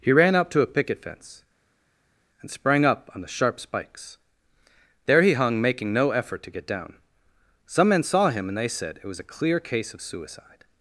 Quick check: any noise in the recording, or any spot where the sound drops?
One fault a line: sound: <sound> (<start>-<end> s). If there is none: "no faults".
no faults